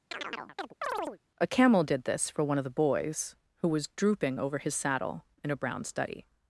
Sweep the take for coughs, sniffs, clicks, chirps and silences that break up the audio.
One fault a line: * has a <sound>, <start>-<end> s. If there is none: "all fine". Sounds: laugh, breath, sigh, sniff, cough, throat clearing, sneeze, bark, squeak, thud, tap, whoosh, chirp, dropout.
* has a chirp, 0.1-1.2 s